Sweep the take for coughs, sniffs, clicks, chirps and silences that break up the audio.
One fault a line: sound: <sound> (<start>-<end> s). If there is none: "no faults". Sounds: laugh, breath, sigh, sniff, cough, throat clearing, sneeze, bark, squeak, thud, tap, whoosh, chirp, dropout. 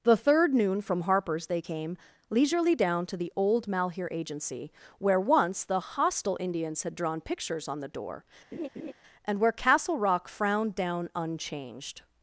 sound: laugh (8.5-8.9 s)